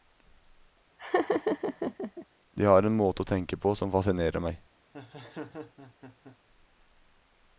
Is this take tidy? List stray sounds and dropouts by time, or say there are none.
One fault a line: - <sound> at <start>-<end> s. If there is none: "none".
- laugh at 1.0-2.3 s
- laugh at 4.9-6.4 s